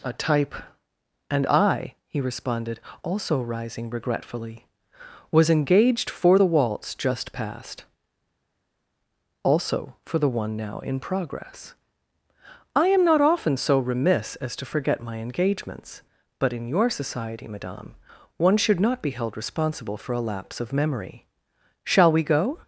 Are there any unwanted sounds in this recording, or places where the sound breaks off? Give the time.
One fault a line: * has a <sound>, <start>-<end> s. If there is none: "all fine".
all fine